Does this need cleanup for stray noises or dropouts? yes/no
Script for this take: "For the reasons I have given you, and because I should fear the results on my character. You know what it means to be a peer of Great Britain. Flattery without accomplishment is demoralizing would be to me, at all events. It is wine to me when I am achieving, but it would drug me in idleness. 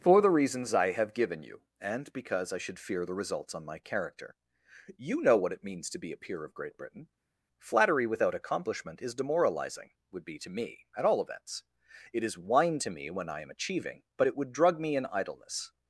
no